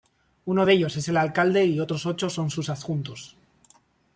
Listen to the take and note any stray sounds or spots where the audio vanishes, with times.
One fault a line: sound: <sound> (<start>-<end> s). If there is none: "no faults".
no faults